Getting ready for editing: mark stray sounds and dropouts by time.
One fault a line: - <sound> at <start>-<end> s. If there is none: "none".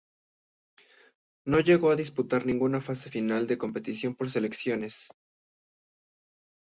none